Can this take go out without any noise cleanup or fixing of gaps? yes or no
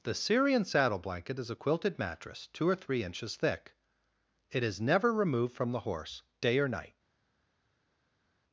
yes